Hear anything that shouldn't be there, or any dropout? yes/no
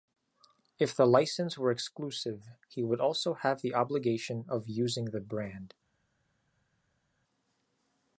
no